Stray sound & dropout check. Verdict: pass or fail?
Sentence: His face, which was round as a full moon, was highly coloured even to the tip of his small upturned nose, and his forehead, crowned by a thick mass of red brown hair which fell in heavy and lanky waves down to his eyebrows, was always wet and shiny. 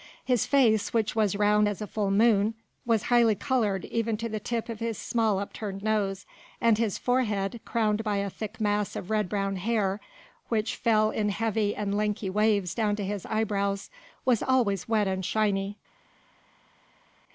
pass